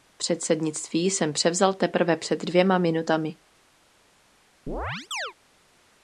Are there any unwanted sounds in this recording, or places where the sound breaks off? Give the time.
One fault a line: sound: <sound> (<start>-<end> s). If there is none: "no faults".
sound: chirp (4.7-5.3 s)